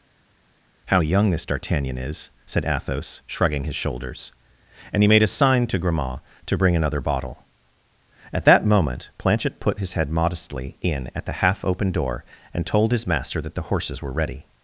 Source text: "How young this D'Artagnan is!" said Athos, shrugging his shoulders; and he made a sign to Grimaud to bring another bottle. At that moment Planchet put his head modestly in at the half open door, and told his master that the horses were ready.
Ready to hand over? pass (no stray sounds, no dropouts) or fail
pass